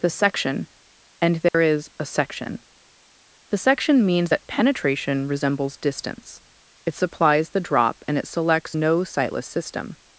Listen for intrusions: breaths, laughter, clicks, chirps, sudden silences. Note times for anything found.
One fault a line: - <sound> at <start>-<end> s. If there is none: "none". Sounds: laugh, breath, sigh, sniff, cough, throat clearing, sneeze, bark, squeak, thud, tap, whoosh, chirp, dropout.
- dropout at 1.5-1.5 s